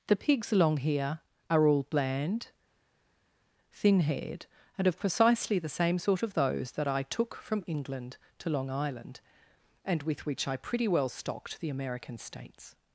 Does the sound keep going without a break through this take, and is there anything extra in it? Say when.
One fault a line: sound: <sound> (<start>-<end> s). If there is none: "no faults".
no faults